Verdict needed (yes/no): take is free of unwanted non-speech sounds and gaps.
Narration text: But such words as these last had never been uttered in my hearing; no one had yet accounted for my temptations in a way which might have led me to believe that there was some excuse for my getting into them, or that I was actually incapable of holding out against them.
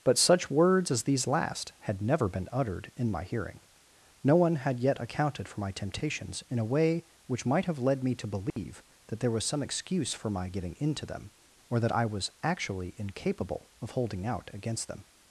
no